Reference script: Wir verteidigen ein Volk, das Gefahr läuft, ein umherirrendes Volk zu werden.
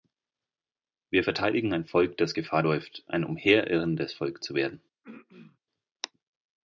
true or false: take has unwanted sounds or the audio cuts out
true